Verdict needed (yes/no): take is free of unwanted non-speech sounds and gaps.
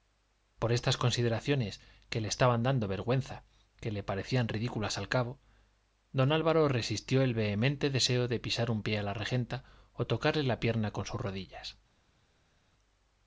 yes